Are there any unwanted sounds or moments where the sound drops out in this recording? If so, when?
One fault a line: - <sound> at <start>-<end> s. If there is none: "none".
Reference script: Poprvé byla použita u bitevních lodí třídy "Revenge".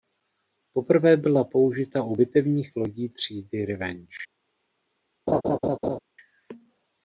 - laugh at 5.3-6.0 s